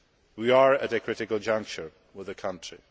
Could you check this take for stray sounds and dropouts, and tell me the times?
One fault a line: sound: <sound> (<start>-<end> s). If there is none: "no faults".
no faults